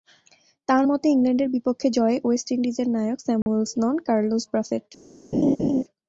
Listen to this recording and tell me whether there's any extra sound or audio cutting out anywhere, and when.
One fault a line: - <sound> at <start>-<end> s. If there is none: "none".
- dropout at 3.4-3.5 s
- laugh at 5.3-5.8 s